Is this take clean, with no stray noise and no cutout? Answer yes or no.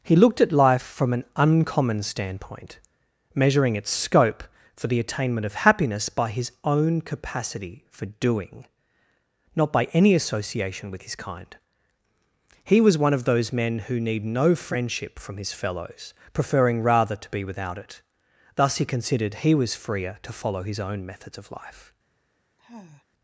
no